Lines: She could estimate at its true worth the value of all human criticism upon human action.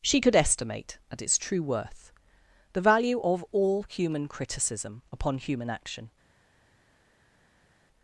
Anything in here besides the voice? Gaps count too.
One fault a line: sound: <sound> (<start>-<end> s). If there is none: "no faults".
no faults